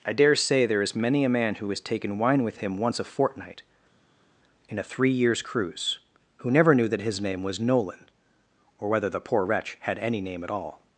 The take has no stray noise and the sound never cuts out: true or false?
true